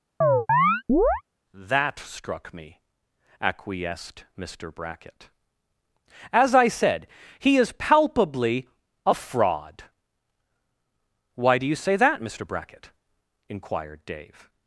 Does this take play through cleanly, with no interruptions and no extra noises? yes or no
no